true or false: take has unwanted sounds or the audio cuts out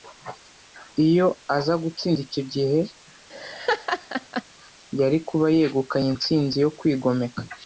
true